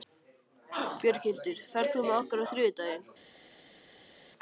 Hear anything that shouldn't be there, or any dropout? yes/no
no